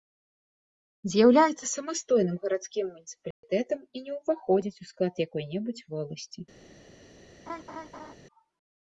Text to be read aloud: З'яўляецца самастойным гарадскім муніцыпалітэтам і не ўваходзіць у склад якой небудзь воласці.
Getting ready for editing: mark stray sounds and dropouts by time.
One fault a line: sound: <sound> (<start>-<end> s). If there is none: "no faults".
sound: dropout (3.3-3.4 s)
sound: laugh (7.5-8.1 s)